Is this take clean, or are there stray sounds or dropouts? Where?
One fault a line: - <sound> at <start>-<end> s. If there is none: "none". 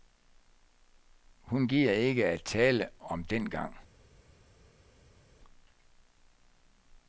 none